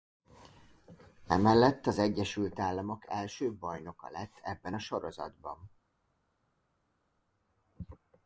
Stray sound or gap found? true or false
false